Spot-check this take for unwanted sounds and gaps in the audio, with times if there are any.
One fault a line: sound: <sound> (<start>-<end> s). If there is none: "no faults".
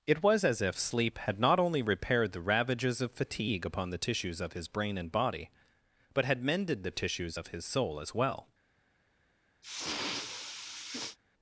sound: sniff (9.6-11.2 s)